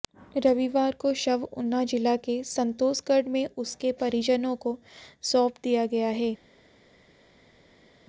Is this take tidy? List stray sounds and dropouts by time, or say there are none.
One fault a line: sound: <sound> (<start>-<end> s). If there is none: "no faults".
no faults